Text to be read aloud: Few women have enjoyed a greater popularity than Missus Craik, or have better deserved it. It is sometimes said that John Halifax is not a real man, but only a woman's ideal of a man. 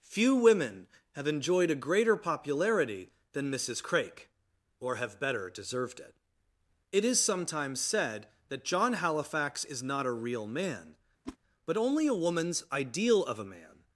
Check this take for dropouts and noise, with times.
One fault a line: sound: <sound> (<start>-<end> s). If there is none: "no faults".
sound: whoosh (11.3-11.4 s)